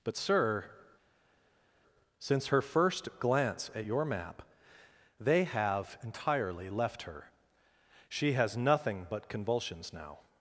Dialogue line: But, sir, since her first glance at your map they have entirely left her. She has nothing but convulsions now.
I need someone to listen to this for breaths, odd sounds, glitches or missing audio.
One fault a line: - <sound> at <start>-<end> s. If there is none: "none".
none